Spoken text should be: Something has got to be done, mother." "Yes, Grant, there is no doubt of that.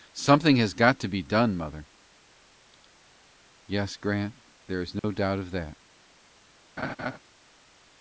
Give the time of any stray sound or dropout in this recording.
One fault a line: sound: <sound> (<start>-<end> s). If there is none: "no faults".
sound: dropout (5.0-5.0 s)
sound: laugh (6.8-7.2 s)